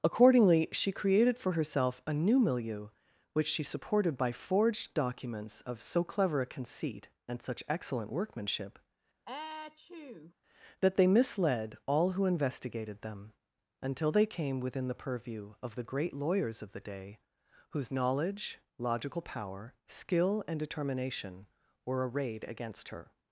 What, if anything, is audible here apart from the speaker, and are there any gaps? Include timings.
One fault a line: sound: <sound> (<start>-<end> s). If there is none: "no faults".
sound: sneeze (9.3-10.3 s)